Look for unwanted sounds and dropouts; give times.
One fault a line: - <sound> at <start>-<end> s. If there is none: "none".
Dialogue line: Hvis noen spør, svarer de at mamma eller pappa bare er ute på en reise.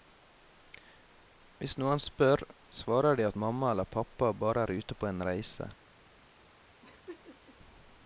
- laugh at 6.8-7.6 s